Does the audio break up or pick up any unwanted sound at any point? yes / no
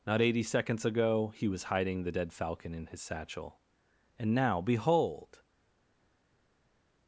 no